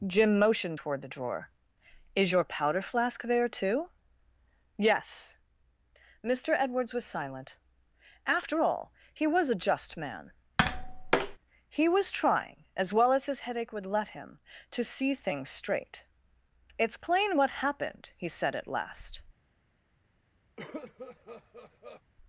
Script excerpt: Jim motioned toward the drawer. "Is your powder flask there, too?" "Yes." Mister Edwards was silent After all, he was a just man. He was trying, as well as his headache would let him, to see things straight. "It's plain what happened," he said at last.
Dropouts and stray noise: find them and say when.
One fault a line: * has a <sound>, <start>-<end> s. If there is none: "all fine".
* has a tap, 10.6-11.4 s
* has a cough, 20.6-22.0 s